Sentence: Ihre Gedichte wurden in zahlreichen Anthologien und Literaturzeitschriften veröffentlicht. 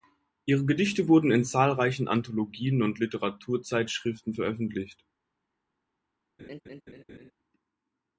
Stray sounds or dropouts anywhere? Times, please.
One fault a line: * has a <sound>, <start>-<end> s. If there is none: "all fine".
* has a laugh, 6.4-7.3 s